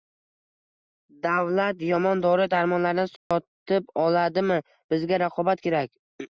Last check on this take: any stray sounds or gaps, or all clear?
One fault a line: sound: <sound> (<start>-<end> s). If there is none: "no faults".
sound: dropout (3.2-3.3 s)